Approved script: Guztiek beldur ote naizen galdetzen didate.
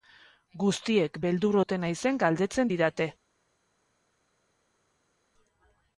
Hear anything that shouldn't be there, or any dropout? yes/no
no